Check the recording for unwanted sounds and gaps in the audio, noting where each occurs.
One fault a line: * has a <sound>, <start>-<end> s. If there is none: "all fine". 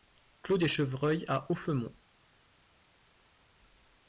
all fine